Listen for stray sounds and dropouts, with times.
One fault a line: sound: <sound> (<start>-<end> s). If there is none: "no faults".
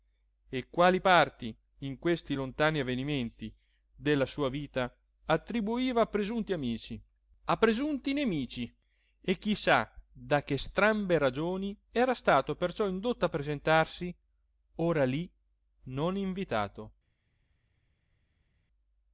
no faults